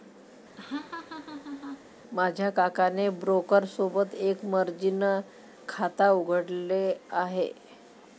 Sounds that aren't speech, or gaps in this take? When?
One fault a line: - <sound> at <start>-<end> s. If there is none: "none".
- laugh at 0.6-1.9 s